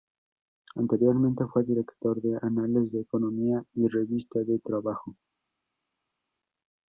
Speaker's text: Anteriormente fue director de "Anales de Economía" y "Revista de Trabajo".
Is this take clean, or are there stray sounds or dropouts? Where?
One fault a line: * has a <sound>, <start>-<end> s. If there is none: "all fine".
all fine